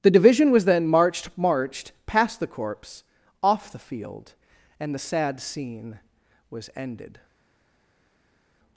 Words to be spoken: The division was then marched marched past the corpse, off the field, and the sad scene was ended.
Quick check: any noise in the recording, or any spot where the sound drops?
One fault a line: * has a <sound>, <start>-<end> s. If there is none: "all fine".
all fine